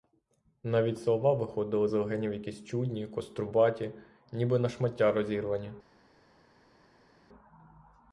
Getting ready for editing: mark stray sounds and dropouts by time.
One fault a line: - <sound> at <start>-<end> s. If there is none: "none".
none